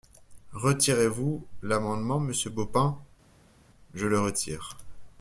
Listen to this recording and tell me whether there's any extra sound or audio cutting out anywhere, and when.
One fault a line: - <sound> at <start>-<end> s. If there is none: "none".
none